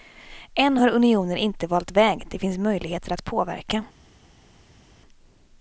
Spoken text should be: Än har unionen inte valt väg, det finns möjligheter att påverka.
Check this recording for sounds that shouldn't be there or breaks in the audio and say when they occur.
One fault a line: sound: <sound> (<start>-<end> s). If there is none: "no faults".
no faults